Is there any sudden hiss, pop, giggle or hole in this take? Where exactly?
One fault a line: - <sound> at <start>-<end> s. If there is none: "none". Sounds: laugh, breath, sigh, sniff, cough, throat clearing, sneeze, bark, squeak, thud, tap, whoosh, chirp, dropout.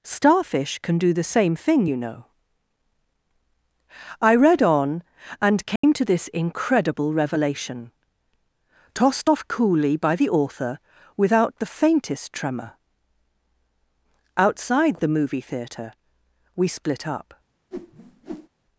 - dropout at 5.8-5.8 s
- whoosh at 17.7-18.5 s